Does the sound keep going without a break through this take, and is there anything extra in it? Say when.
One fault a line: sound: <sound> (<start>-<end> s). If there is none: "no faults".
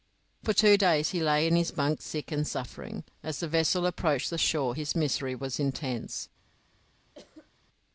sound: cough (7.1-7.5 s)